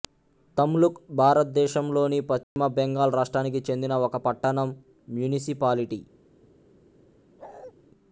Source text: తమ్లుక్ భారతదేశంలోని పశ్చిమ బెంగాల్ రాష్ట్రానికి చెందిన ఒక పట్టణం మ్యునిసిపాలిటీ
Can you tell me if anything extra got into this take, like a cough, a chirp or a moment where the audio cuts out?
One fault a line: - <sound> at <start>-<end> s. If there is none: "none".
- dropout at 2.4-2.6 s
- bark at 7.4-7.7 s